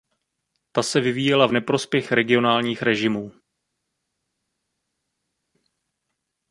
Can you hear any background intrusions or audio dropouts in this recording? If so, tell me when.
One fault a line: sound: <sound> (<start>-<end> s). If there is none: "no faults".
no faults